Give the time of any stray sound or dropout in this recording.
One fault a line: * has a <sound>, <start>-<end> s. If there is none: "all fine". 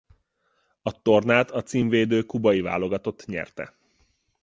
all fine